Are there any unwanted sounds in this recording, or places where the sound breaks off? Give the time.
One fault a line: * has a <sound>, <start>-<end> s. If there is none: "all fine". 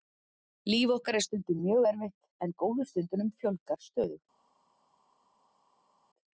all fine